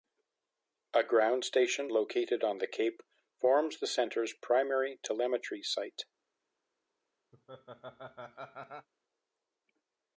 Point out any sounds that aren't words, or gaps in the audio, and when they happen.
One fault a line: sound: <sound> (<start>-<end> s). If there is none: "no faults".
sound: laugh (7.3-8.9 s)